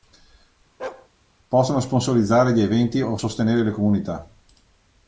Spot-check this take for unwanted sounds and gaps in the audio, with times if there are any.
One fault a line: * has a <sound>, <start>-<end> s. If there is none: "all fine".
* has a bark, 0.8-1.1 s